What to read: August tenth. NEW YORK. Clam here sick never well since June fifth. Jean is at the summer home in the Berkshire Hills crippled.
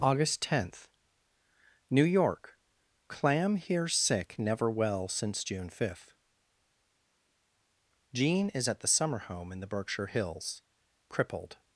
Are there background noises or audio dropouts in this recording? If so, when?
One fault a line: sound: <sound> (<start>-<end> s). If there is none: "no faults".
no faults